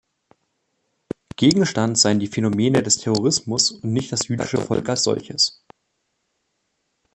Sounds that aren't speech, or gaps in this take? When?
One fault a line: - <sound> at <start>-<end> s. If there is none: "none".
none